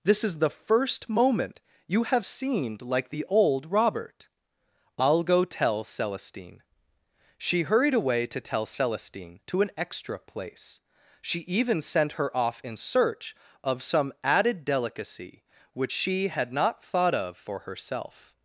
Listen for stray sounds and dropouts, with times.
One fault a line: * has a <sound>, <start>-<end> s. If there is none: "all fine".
all fine